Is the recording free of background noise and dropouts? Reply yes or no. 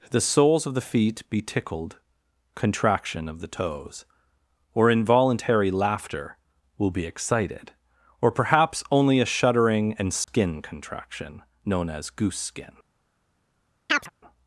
no